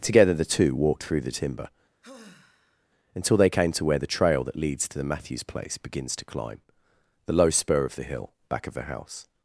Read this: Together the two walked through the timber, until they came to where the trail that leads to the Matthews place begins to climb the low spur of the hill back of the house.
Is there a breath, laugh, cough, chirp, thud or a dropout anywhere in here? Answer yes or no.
yes